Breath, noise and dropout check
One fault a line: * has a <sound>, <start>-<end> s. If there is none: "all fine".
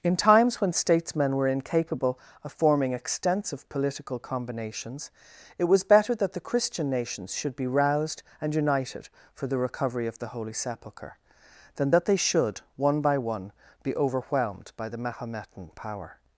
all fine